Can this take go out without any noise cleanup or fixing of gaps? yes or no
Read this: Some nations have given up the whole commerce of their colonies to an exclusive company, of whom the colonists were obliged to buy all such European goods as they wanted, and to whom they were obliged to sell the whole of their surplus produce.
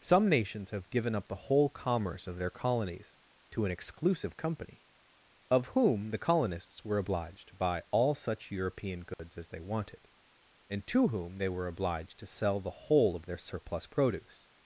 no